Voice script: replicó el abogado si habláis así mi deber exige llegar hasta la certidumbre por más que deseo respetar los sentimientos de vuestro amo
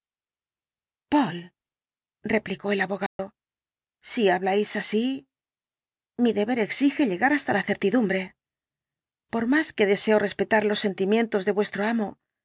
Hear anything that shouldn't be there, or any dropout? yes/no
yes